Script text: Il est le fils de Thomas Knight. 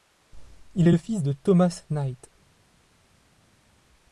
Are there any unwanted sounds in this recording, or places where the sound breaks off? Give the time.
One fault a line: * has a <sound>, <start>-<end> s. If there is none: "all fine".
all fine